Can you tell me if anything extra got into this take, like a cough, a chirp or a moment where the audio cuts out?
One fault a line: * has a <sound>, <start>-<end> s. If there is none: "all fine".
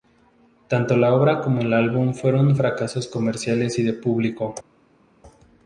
all fine